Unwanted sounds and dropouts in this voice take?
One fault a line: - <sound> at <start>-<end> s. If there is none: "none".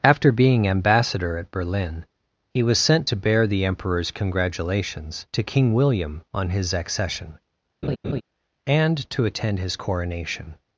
- laugh at 7.8-8.2 s